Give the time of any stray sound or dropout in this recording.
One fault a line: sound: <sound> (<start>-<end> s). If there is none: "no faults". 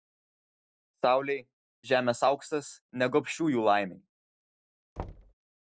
sound: thud (5.0-5.3 s)